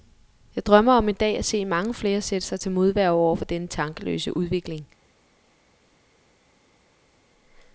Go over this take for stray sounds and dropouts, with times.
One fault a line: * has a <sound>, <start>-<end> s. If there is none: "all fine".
all fine